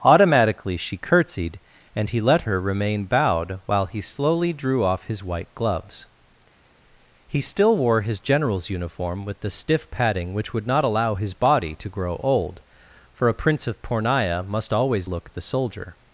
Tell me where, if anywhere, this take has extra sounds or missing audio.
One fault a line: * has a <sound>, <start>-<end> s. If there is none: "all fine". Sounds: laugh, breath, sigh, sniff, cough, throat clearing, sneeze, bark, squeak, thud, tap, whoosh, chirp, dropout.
all fine